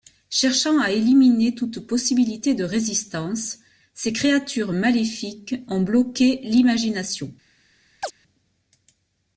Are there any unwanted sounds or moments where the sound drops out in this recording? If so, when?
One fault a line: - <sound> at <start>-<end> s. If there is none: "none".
- chirp at 8.0-8.1 s